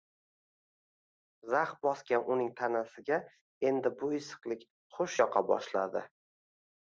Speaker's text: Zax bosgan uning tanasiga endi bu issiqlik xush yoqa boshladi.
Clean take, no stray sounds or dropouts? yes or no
yes